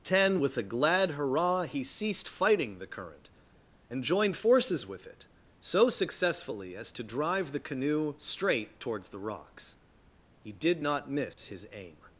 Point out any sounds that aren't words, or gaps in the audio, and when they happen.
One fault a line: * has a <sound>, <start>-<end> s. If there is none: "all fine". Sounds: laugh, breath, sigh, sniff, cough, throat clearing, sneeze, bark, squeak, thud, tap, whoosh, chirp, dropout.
* has a dropout, 11.3-11.4 s